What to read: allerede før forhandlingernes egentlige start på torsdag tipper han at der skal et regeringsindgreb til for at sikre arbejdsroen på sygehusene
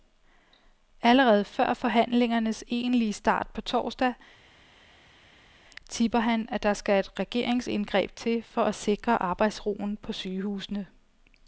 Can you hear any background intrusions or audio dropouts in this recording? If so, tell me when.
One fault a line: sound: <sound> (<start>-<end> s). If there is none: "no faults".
no faults